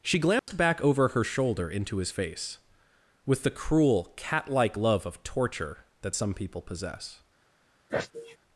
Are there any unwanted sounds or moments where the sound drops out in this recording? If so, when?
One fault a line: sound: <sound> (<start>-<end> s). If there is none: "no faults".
sound: dropout (0.4-0.5 s)
sound: sneeze (7.9-8.4 s)